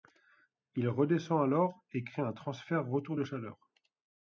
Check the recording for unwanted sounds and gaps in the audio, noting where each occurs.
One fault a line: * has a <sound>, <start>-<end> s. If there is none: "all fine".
all fine